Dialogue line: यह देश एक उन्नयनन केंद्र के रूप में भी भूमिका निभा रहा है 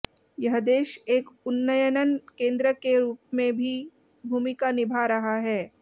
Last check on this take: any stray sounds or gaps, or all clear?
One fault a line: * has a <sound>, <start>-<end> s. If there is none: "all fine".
all fine